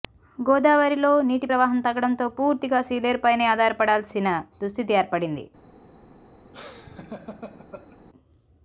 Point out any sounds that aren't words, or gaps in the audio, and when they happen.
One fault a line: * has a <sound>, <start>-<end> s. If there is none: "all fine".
* has a laugh, 6.5-8.0 s